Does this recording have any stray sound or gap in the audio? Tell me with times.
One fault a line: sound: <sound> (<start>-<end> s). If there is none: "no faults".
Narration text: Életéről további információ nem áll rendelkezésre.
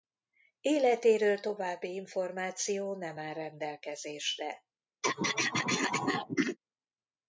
sound: throat clearing (5.0-6.6 s)